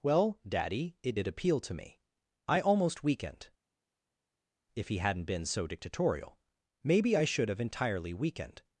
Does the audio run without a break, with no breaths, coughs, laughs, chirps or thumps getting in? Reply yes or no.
yes